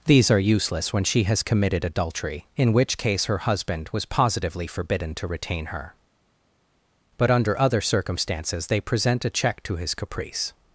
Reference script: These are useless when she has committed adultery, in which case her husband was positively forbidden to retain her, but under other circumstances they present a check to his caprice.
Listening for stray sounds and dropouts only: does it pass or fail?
pass